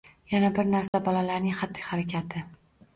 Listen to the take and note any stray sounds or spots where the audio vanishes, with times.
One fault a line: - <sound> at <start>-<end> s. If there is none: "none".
- dropout at 0.9-0.9 s